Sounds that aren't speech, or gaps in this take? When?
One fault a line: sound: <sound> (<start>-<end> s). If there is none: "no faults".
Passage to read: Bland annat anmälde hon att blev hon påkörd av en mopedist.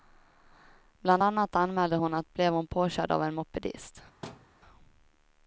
sound: thud (4.2-4.5 s)